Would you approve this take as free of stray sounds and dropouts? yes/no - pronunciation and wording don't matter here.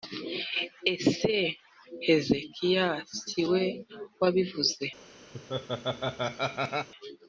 no